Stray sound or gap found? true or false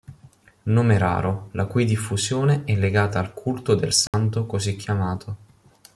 true